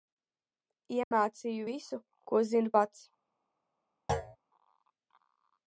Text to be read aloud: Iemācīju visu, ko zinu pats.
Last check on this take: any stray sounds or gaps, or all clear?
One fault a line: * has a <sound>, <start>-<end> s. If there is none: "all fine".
* has a dropout, 1.0-1.1 s
* has a thud, 4.1-4.4 s